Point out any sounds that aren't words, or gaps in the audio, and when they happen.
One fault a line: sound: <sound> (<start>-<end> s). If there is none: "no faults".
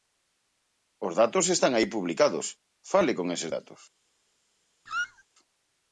sound: squeak (4.9-5.2 s)